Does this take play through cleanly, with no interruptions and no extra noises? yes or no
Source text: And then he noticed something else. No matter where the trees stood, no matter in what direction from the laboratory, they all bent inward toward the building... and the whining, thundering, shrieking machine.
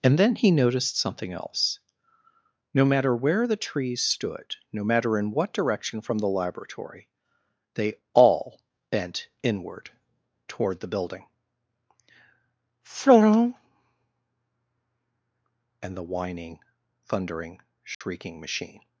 no